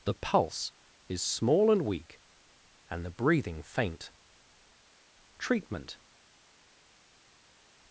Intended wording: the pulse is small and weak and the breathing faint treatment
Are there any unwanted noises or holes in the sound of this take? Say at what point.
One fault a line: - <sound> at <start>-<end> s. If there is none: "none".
none